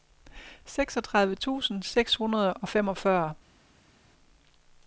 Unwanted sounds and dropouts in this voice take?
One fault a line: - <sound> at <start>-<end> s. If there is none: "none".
none